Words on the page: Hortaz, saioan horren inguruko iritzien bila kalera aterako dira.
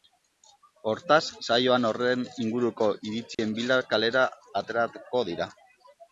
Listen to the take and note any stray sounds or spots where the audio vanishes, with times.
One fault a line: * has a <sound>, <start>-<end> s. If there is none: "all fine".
* has a dropout, 3.3-3.4 s